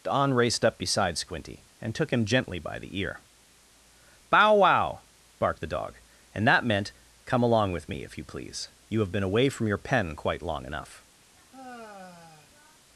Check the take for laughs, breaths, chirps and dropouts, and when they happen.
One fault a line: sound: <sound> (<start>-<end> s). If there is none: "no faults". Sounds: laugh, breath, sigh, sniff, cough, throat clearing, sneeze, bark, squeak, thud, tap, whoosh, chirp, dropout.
sound: sigh (11.3-12.9 s)